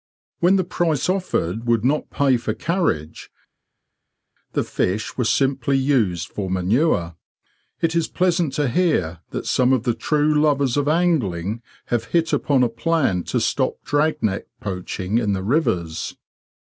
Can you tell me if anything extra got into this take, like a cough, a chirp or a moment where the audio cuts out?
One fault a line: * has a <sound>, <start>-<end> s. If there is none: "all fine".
all fine